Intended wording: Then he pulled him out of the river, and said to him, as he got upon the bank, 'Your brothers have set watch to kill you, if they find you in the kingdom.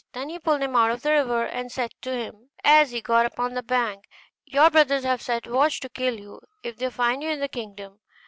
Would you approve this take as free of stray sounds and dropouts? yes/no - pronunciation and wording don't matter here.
yes